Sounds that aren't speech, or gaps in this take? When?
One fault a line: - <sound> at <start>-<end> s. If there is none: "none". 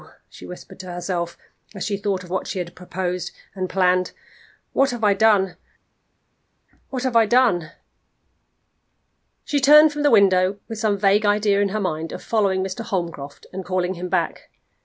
none